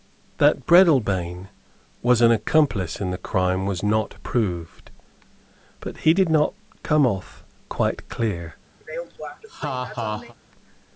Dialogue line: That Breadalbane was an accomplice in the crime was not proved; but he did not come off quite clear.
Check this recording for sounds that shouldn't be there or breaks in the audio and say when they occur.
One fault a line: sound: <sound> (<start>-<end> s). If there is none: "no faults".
sound: laugh (8.8-10.3 s)